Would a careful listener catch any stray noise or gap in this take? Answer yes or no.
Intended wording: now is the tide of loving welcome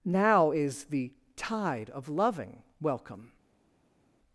no